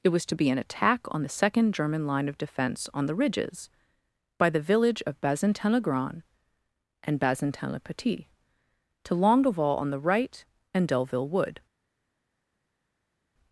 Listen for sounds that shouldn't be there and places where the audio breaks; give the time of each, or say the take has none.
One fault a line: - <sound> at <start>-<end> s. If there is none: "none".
none